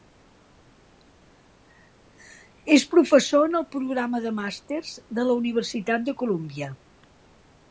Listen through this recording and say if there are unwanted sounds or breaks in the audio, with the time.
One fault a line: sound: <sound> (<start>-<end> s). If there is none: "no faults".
no faults